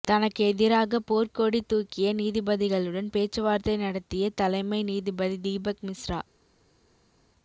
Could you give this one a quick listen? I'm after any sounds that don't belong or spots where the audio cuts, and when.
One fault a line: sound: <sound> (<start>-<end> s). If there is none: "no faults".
no faults